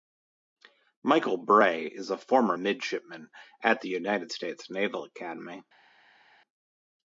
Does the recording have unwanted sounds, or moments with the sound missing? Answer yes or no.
no